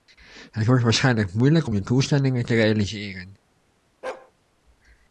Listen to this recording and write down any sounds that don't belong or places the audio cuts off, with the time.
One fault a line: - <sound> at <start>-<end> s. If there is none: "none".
- bark at 4.0-4.3 s